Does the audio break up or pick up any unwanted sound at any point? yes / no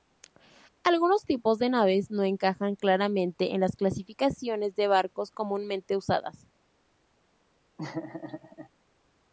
yes